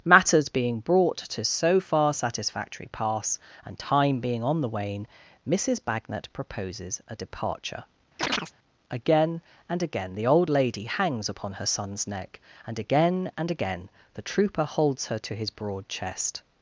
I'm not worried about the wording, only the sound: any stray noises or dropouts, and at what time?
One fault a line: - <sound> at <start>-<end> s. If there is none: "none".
- chirp at 8.2-8.5 s